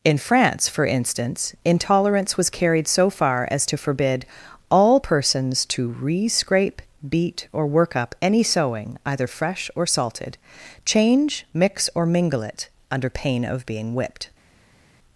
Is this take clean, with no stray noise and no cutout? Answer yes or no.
yes